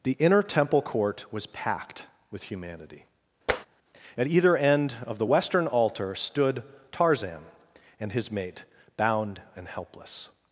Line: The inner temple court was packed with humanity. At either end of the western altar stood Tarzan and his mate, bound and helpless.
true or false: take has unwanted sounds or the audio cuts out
true